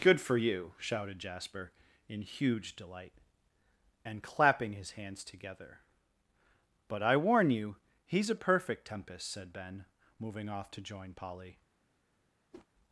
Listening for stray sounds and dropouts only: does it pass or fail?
fail